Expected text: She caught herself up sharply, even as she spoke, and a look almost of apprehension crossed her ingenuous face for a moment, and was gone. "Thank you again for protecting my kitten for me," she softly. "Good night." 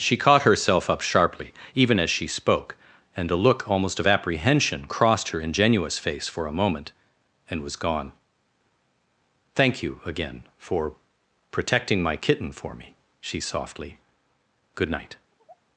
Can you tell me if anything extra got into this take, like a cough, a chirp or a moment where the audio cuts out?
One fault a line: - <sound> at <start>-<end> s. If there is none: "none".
- sigh at 15.3-15.6 s